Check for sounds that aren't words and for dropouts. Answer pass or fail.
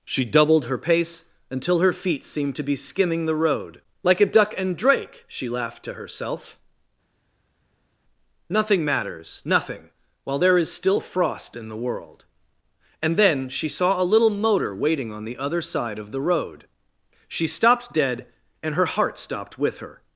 pass